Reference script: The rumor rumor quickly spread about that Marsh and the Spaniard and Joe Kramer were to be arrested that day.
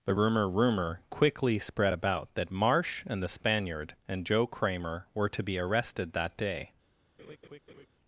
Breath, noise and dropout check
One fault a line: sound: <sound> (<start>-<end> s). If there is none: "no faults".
sound: laugh (7.2-7.9 s)